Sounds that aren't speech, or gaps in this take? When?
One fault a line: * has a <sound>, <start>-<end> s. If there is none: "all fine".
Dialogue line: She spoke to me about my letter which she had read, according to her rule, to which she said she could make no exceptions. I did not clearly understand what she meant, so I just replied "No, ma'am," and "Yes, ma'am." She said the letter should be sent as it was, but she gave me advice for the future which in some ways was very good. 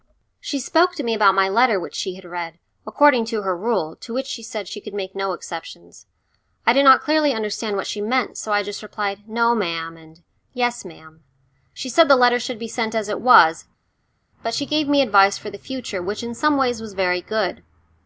all fine